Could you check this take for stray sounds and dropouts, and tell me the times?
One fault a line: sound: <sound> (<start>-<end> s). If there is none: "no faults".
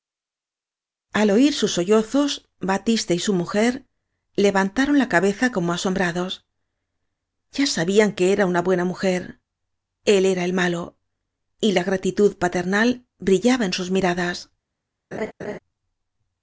sound: laugh (15.1-15.6 s)